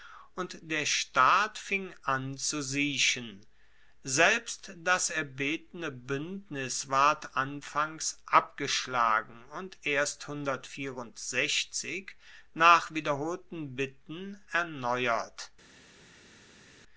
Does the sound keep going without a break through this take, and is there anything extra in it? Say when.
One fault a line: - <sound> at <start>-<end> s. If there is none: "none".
none